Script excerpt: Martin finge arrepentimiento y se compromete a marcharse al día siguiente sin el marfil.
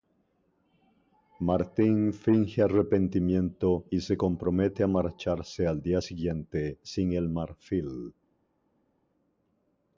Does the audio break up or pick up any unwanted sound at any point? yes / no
no